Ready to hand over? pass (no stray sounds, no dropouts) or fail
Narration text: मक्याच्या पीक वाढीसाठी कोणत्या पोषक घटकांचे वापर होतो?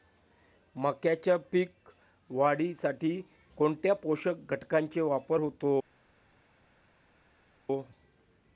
pass